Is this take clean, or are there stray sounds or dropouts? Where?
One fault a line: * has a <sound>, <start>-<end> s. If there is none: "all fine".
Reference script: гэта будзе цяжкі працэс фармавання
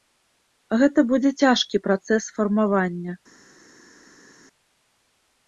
all fine